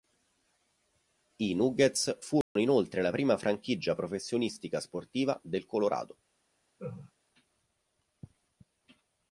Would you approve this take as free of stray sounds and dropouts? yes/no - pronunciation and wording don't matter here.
no